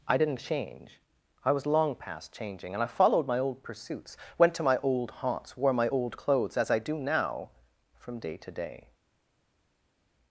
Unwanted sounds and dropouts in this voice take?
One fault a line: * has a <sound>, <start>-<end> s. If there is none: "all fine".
all fine